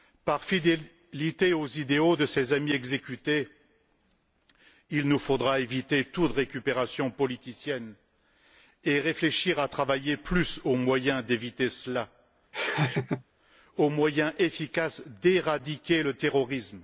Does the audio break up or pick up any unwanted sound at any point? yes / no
yes